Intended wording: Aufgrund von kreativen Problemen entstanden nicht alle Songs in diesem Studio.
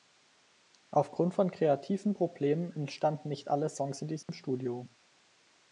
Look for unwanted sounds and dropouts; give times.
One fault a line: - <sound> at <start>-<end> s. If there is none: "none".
- dropout at 4.2-4.3 s